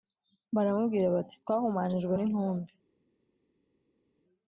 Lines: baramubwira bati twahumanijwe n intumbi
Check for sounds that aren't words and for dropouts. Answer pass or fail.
pass